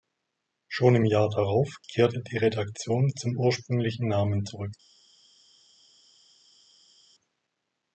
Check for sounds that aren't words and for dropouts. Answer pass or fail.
pass